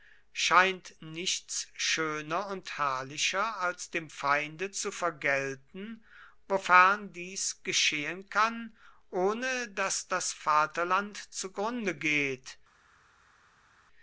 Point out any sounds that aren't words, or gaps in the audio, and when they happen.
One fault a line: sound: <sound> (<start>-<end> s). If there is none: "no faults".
no faults